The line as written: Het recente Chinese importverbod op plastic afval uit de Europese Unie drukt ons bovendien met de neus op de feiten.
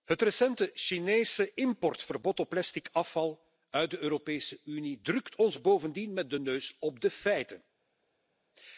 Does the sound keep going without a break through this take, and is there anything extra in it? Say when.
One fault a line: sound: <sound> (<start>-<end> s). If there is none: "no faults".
no faults